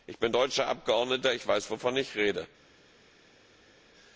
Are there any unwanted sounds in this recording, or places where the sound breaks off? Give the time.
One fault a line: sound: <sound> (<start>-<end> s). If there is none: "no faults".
no faults